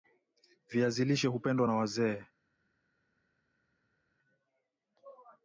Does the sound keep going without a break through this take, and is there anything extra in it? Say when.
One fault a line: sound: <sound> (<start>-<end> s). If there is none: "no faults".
no faults